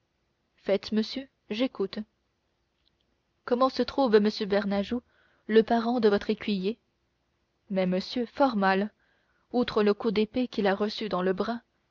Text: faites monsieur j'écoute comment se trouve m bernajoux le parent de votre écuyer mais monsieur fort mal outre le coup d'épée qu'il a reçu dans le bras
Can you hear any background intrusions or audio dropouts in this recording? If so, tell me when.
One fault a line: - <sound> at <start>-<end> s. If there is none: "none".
none